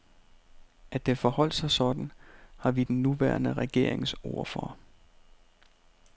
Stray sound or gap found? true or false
false